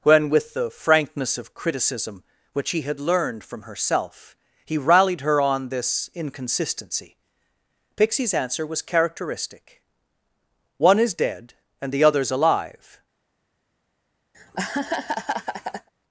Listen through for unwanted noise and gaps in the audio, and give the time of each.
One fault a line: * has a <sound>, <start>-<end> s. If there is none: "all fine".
* has a laugh, 14.3-15.9 s